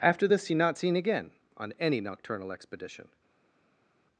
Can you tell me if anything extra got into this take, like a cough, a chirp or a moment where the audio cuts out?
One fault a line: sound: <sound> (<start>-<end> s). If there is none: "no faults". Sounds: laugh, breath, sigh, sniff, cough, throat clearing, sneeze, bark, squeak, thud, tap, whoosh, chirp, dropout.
no faults